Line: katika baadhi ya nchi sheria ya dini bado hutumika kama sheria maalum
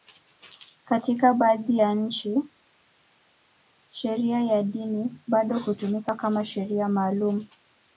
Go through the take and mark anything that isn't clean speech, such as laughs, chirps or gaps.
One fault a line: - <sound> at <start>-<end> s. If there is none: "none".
none